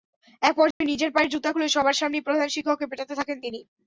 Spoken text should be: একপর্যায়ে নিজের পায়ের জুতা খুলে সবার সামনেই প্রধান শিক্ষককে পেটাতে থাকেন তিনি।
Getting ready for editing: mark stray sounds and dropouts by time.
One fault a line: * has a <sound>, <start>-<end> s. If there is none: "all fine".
* has a dropout, 0.7-0.8 s